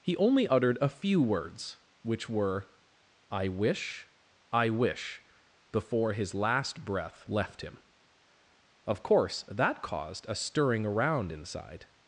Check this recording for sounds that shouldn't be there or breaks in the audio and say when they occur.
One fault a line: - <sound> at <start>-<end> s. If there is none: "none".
none